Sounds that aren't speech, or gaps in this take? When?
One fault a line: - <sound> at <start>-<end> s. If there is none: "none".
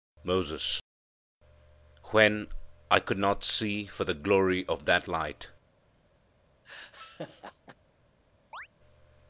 - laugh at 6.6-7.8 s
- chirp at 8.5-8.7 s